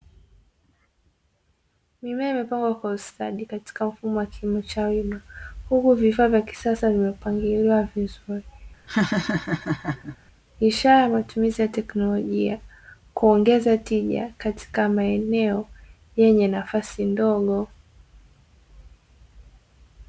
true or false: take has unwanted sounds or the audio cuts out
true